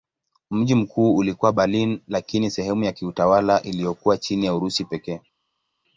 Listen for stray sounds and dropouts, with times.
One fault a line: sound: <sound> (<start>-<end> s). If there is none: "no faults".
no faults